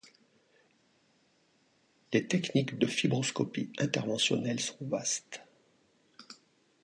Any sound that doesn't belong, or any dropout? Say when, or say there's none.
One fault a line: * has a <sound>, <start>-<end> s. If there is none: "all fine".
all fine